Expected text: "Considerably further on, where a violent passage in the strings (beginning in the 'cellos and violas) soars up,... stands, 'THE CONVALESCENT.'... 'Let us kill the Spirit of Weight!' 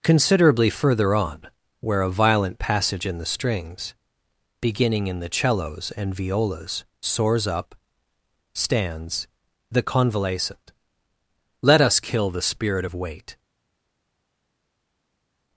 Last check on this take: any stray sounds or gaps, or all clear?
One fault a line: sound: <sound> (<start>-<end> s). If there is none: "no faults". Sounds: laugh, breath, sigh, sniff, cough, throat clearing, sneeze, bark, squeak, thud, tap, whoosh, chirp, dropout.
no faults